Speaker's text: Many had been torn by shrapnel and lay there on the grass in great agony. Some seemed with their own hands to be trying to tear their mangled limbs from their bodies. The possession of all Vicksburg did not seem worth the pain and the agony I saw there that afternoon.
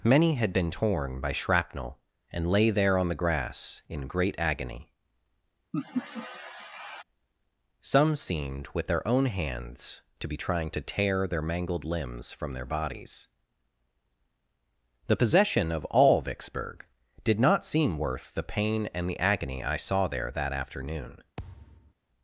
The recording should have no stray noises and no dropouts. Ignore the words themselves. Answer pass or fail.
fail